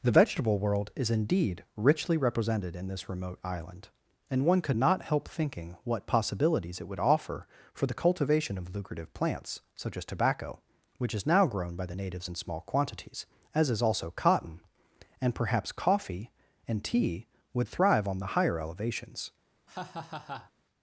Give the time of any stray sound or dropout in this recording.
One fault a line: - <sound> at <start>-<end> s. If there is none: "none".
- laugh at 19.7-20.5 s